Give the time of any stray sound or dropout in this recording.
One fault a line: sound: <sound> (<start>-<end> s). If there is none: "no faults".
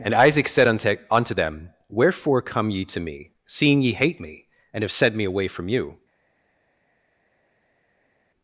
no faults